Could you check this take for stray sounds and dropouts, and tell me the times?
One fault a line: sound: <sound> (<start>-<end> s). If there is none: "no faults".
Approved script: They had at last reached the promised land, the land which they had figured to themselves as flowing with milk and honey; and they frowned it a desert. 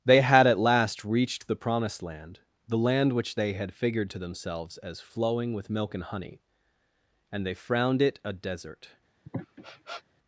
sound: sniff (9.2-10.0 s)